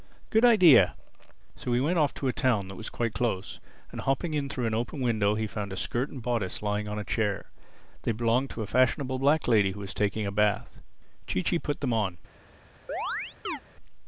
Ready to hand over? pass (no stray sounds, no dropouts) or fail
fail